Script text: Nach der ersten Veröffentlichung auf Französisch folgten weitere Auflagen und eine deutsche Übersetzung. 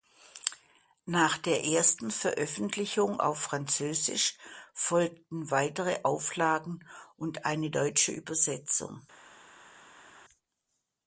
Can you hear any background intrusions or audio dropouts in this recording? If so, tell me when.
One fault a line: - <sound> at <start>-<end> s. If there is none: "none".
none